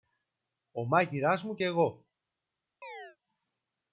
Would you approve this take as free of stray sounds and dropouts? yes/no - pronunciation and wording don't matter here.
no